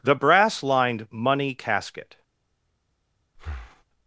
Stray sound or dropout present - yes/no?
yes